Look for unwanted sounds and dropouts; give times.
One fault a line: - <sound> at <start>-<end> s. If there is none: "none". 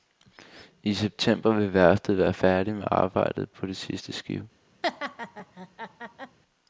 - laugh at 4.8-6.4 s